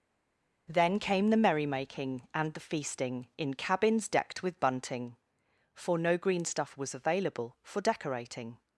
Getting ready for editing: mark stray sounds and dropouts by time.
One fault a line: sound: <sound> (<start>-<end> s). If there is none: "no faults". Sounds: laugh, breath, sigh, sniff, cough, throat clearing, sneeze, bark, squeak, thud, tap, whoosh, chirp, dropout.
no faults